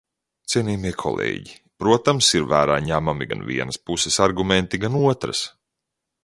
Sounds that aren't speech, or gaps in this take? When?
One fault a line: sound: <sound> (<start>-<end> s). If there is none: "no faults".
no faults